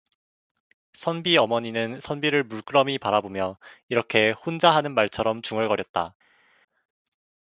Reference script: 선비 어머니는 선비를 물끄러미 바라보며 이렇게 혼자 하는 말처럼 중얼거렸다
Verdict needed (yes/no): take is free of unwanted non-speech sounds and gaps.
yes